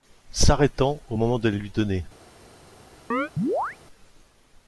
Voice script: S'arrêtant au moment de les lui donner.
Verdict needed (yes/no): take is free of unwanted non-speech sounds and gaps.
no